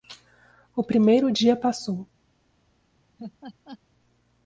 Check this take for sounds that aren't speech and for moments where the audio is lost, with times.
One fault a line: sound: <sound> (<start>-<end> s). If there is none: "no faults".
sound: laugh (3.2-3.8 s)